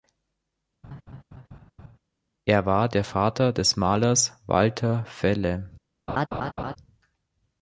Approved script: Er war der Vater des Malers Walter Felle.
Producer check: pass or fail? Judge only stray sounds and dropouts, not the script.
fail